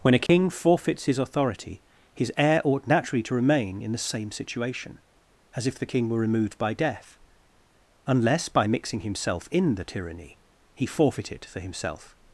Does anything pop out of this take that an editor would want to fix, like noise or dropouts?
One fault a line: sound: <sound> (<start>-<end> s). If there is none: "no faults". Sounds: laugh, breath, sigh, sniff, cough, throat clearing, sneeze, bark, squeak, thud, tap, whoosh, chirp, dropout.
sound: dropout (0.3-0.3 s)